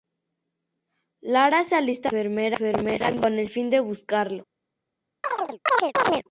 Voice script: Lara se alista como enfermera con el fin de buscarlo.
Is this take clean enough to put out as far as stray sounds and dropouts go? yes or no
no